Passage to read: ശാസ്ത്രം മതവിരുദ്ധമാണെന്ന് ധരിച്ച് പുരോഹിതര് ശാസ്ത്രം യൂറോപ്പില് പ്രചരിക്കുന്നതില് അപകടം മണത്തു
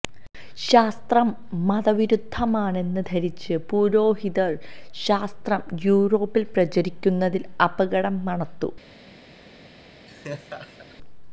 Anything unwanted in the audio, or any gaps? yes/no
yes